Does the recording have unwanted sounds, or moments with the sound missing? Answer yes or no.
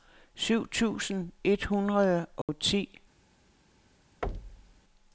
yes